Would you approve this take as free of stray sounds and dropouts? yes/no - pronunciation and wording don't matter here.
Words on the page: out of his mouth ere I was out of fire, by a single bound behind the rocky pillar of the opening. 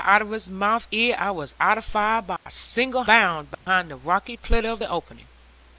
no